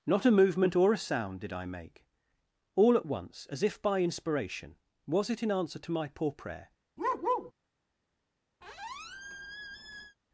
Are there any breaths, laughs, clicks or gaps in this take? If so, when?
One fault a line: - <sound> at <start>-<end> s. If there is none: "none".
- bark at 7.0-7.5 s
- squeak at 8.6-10.2 s